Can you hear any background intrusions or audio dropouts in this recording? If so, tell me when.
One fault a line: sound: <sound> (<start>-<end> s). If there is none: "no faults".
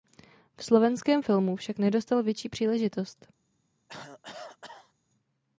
sound: cough (3.9-4.9 s)